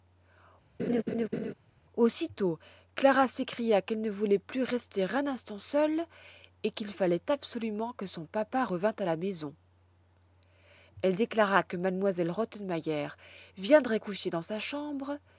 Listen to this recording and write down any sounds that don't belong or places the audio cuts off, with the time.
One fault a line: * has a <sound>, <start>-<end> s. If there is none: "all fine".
* has a laugh, 0.8-1.5 s